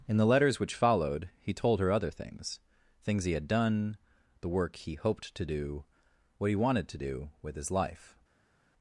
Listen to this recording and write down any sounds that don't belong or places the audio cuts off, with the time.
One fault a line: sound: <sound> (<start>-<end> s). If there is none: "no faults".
no faults